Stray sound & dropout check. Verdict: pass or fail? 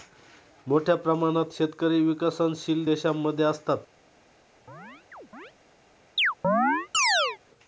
fail